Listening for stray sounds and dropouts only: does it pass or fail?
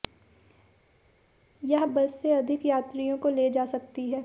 pass